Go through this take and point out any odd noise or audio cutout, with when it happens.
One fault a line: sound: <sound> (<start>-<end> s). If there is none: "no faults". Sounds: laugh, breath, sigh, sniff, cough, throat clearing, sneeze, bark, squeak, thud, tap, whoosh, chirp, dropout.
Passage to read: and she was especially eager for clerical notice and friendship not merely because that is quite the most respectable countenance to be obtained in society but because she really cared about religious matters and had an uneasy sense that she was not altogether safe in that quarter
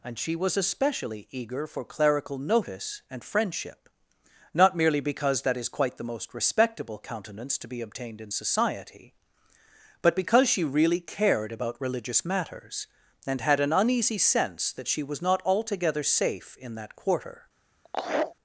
sound: laugh (17.8-18.4 s)